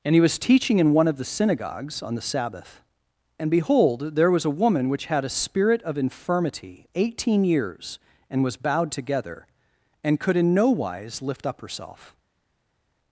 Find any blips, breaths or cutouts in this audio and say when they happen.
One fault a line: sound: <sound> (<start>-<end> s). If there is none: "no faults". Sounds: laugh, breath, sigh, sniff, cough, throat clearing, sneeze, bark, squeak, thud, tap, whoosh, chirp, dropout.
no faults